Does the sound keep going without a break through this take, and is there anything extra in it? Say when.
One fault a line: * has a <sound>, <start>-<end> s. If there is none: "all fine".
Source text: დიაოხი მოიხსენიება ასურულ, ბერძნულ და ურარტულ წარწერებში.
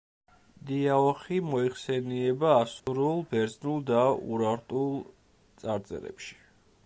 * has a dropout, 2.8-2.9 s